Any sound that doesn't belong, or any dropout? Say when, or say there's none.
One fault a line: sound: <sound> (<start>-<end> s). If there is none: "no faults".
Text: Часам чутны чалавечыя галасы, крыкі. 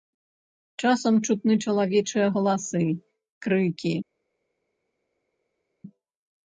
no faults